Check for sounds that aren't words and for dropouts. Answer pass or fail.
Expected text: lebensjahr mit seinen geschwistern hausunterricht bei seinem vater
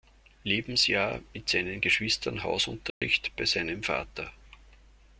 fail